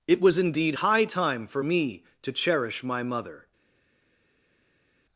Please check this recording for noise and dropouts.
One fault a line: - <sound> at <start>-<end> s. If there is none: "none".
none